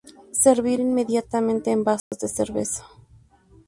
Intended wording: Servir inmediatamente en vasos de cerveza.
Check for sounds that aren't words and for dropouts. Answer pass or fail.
fail